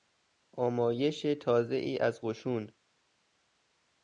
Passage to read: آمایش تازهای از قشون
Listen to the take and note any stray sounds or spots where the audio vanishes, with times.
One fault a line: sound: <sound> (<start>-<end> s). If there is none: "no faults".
no faults